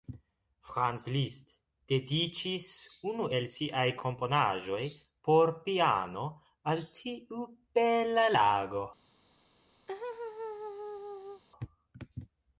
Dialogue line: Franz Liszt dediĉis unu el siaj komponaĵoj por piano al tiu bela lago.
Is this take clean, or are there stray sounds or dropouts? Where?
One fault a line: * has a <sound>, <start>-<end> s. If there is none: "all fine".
* has a laugh, 9.9-11.4 s